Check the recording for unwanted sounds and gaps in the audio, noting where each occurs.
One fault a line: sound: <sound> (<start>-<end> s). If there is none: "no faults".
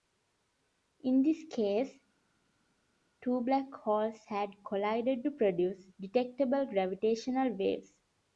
no faults